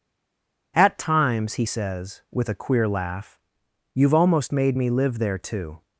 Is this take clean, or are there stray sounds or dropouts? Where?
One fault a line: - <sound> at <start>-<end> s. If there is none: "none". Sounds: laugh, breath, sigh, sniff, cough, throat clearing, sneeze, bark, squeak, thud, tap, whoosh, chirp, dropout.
none